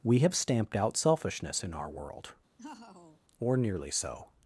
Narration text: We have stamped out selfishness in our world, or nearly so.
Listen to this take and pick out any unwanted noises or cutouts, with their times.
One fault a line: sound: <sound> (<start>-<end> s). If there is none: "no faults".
sound: laugh (2.6-3.2 s)